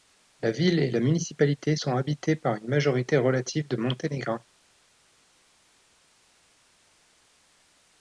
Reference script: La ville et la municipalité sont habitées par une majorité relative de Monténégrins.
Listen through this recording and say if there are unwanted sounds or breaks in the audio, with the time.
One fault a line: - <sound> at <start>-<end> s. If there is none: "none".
none